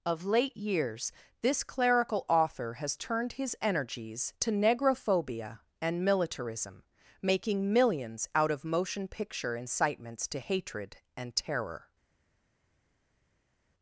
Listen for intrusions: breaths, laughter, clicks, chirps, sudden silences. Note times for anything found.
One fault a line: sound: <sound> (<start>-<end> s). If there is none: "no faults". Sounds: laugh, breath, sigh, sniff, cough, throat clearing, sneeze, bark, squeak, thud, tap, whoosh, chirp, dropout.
no faults